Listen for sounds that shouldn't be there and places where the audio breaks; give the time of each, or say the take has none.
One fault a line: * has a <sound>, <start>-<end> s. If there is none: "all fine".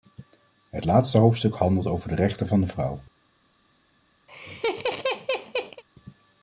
* has a laugh, 4.3-5.8 s